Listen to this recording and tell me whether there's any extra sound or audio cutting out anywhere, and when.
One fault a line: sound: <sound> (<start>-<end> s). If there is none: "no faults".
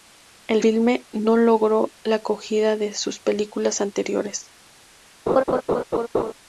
sound: laugh (5.3-6.3 s)